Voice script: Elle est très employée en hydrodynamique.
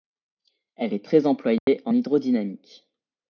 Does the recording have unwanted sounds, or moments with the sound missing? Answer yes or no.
yes